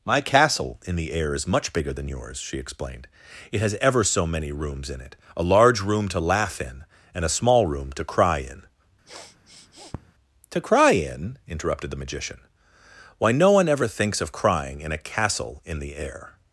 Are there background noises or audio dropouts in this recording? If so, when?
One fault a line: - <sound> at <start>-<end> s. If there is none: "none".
- sniff at 9.1-10.1 s